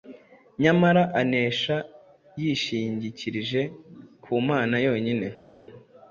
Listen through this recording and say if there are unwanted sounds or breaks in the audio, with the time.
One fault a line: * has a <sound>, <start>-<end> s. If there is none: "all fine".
all fine